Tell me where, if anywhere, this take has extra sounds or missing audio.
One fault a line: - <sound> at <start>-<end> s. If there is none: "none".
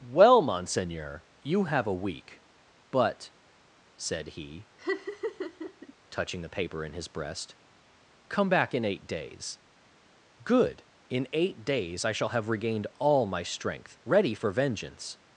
- laugh at 4.8-5.9 s